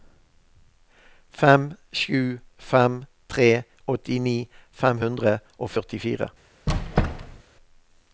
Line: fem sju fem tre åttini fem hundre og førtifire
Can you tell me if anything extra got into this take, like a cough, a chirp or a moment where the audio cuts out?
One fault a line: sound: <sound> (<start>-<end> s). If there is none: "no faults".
sound: squeak (6.7-7.4 s)